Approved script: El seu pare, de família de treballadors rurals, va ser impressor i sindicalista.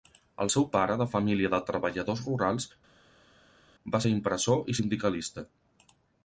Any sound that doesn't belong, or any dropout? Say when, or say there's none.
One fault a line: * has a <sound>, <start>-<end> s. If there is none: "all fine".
all fine